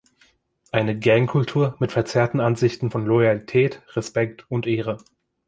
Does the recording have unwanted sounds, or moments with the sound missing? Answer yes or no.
no